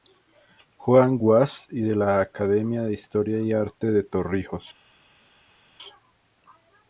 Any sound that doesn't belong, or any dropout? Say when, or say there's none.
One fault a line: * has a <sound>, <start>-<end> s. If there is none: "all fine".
all fine